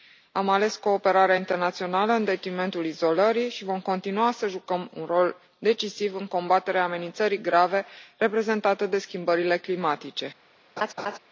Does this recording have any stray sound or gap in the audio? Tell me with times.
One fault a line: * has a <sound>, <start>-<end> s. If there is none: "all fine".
* has a laugh, 10.8-11.2 s